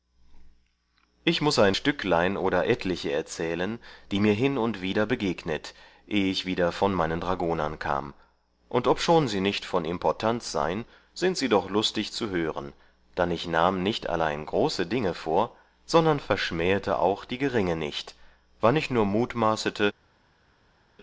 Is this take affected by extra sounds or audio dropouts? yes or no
no